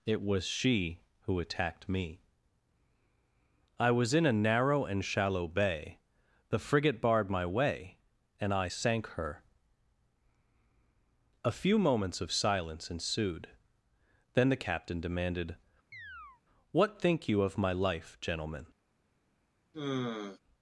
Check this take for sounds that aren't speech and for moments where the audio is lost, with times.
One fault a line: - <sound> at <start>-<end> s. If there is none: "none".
- chirp at 15.9-16.4 s
- sigh at 19.7-20.4 s